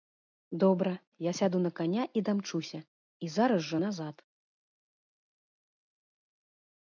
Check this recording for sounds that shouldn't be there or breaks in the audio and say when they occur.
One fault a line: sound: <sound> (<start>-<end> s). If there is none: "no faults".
no faults